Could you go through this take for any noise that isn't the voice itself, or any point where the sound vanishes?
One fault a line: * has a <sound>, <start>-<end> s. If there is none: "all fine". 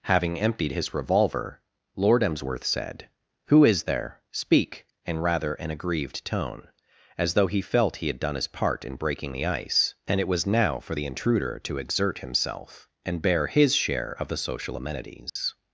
* has a dropout, 15.3-15.4 s